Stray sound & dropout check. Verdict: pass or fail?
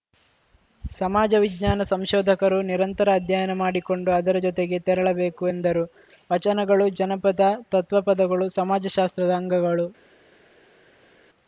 pass